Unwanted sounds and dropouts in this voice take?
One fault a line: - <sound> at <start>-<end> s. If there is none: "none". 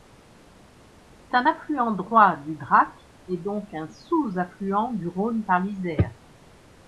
none